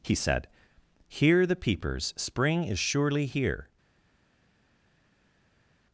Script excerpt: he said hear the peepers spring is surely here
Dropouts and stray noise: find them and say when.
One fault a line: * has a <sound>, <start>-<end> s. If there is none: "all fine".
all fine